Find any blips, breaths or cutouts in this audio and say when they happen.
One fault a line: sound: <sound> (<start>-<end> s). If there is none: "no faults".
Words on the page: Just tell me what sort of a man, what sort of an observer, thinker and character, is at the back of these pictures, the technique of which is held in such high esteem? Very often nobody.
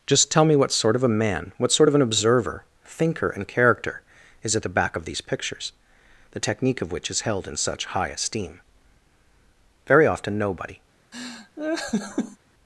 sound: laugh (11.1-12.4 s)